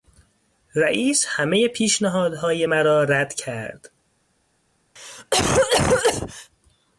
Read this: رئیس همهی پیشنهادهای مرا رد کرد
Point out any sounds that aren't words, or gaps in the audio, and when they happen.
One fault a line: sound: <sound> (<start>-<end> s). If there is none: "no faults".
sound: cough (5.0-6.5 s)